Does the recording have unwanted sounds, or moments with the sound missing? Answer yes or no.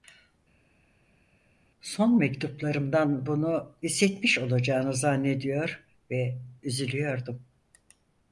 no